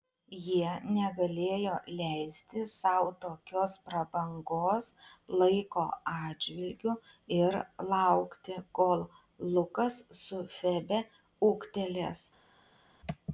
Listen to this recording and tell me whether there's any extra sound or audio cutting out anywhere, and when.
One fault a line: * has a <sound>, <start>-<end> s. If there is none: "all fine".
all fine